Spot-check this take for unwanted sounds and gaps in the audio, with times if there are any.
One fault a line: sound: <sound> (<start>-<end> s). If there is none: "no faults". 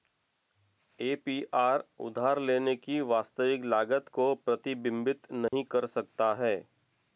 sound: dropout (5.5-5.5 s)